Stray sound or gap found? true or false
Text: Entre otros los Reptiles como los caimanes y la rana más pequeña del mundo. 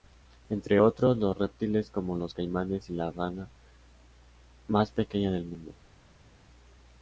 false